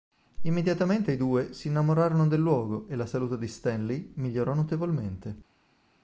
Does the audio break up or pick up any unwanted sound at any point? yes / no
no